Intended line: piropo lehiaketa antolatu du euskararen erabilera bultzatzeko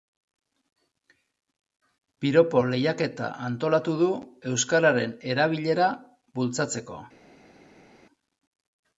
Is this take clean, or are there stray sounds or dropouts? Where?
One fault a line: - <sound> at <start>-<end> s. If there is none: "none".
none